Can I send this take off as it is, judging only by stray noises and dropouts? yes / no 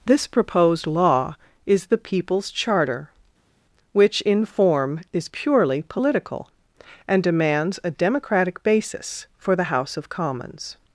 yes